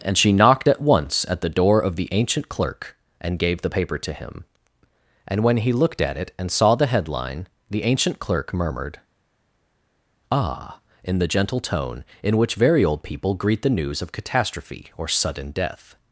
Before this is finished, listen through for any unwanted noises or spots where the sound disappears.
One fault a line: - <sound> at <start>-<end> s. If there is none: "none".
none